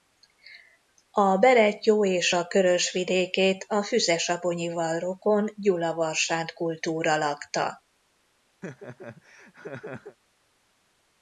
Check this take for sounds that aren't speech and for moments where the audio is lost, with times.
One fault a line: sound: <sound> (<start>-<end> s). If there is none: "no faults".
sound: laugh (8.6-10.2 s)